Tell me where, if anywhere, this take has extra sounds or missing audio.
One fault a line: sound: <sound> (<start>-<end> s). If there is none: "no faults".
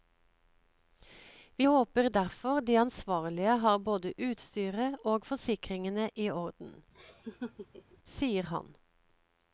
sound: laugh (6.9-8.0 s)